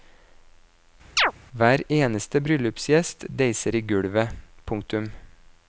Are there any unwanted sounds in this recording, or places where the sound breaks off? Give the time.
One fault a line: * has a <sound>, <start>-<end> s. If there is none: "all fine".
* has a chirp, 1.2-1.3 s